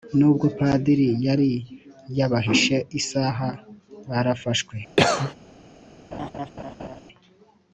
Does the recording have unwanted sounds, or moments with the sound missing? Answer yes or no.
yes